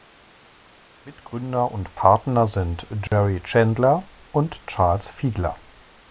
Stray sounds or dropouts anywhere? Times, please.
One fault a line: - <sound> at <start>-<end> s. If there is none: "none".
- dropout at 3.1-3.1 s